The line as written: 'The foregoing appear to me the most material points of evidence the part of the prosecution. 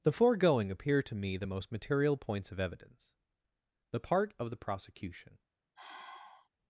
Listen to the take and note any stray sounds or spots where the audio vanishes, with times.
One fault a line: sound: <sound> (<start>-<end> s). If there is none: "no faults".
sound: sigh (5.8-6.5 s)